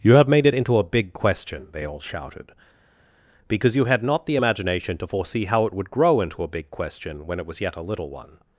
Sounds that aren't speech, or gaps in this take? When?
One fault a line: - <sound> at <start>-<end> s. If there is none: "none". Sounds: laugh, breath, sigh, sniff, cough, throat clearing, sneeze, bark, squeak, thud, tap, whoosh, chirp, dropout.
none